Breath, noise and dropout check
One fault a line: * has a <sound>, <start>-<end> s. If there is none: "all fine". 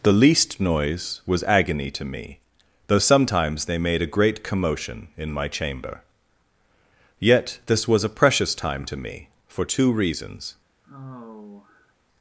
* has a sigh, 10.8-11.9 s